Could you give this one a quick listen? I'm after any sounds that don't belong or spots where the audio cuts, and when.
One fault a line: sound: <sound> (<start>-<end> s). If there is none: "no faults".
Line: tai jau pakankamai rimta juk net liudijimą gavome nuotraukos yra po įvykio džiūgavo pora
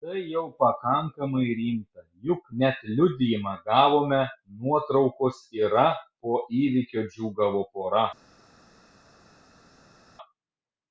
no faults